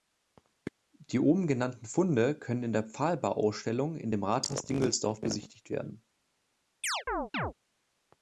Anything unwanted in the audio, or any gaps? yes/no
yes